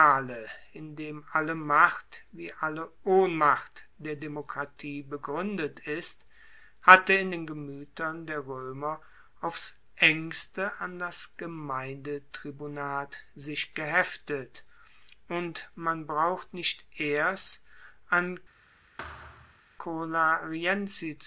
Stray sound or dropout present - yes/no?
yes